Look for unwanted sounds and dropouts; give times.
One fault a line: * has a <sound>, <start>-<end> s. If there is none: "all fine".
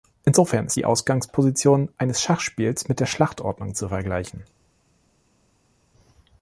all fine